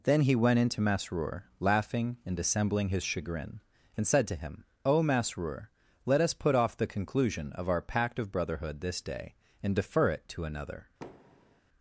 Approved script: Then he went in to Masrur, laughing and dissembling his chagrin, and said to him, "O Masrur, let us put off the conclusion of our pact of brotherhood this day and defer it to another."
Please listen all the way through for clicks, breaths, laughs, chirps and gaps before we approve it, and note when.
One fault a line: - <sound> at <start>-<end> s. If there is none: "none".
- thud at 11.0-11.6 s